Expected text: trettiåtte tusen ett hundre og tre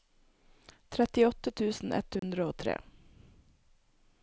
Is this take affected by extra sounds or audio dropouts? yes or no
yes